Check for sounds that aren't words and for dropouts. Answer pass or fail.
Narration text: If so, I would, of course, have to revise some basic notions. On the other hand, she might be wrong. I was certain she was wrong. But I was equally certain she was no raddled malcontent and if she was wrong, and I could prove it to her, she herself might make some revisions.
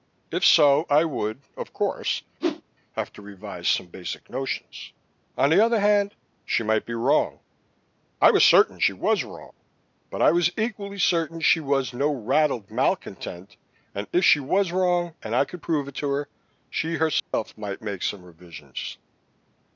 fail